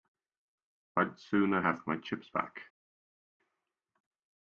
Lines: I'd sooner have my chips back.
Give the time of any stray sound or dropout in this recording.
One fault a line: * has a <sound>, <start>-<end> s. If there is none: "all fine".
all fine